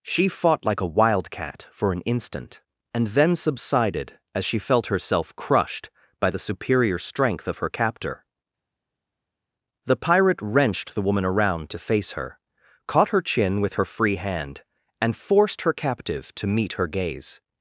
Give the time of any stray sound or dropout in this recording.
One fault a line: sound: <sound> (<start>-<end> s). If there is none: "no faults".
no faults